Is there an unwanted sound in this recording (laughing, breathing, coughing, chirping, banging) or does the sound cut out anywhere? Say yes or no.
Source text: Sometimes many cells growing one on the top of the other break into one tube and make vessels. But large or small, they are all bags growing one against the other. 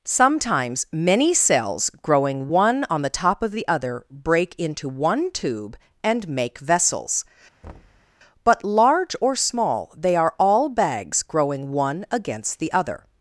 yes